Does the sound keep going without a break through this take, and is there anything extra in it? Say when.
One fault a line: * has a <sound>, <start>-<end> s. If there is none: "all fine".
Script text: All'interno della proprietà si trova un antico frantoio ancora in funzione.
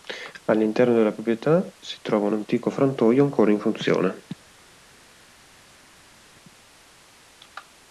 all fine